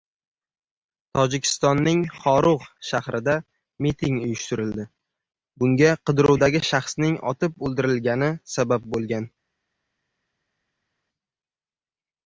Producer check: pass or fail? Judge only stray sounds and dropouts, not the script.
pass